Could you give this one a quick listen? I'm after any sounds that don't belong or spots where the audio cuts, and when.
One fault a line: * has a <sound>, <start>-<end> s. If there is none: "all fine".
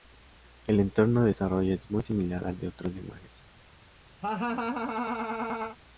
* has a laugh, 4.2-5.8 s